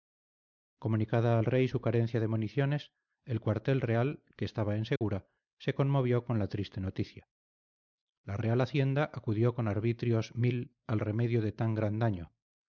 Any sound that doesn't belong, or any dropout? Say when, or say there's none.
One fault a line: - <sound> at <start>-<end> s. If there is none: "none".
- dropout at 5.0-5.0 s